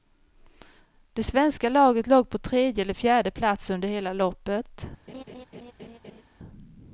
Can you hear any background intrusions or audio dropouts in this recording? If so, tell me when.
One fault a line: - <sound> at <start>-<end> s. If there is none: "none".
- laugh at 5.1-6.2 s